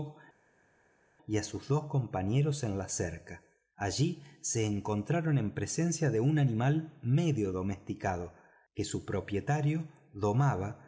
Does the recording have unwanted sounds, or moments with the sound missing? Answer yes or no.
no